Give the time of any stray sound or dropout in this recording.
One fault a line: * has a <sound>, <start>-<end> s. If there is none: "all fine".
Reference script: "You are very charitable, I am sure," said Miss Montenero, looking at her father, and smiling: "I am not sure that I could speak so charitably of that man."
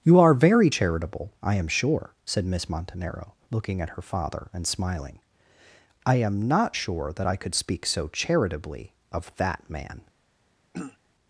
* has a throat clearing, 10.7-11.0 s